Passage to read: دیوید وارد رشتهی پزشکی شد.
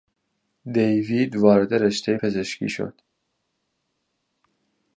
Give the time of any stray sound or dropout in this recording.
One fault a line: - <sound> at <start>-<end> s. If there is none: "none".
none